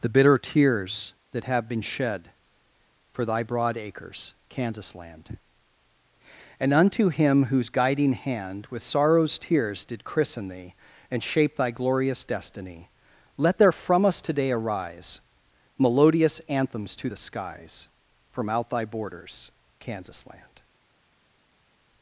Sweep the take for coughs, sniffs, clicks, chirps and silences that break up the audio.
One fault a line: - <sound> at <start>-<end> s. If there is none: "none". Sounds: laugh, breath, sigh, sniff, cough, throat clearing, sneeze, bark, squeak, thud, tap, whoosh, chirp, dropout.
none